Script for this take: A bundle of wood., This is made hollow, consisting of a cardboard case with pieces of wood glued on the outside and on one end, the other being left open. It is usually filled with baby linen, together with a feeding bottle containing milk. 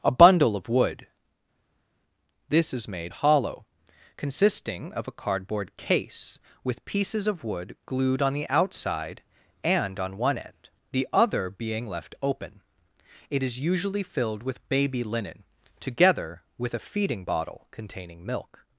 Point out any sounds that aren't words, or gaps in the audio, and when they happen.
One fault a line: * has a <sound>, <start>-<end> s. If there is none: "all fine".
all fine